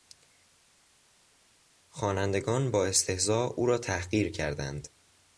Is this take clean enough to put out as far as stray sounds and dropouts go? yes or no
yes